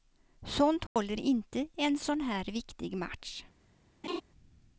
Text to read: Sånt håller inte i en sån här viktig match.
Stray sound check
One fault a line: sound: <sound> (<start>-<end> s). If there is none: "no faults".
sound: dropout (0.9-1.0 s)
sound: laugh (4.0-4.2 s)